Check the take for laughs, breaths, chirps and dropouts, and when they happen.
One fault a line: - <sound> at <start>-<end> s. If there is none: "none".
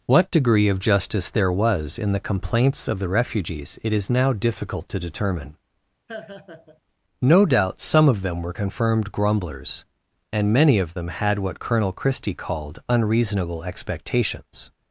- laugh at 6.1-6.8 s